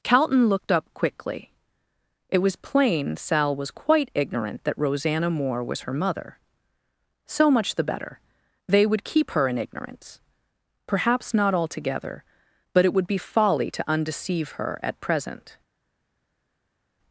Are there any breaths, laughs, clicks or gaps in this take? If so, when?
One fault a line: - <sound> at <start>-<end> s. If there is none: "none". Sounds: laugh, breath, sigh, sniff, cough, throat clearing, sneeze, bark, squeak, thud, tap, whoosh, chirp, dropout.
none